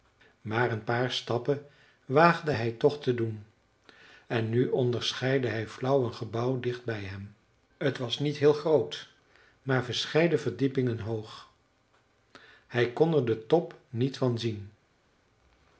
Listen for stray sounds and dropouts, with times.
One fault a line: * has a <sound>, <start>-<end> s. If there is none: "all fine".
all fine